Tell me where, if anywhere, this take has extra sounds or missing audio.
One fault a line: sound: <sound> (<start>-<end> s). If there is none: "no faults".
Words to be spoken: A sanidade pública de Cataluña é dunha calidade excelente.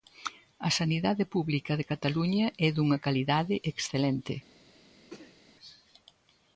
sound: sneeze (5.1-5.4 s)